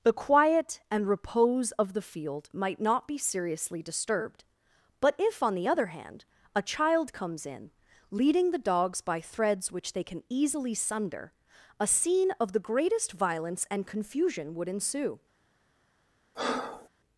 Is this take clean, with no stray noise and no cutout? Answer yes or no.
no